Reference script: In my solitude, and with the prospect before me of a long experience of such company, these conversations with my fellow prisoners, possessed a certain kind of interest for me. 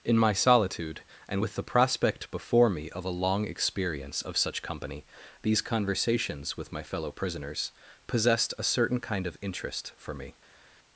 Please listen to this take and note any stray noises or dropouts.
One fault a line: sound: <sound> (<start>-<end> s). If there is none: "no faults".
no faults